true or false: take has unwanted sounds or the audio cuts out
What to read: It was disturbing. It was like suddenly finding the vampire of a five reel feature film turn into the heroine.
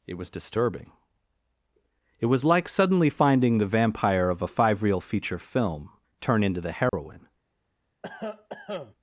true